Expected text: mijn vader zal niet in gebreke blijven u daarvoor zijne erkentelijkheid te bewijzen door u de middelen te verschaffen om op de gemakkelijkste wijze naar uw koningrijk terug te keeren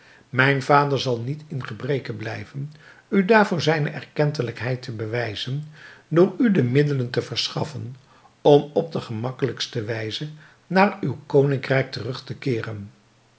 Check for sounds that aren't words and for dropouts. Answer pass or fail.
pass